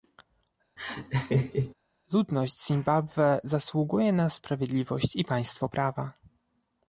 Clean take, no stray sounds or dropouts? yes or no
no